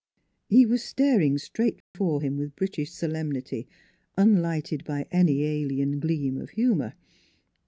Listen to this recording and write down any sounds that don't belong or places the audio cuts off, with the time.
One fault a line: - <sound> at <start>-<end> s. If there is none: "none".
- dropout at 1.8-1.9 s